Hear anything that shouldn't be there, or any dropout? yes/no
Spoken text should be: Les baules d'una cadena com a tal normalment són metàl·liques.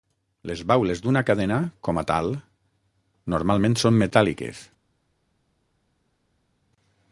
no